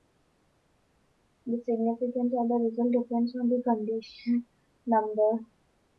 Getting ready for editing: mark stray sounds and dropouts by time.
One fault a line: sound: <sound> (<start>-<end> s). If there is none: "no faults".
no faults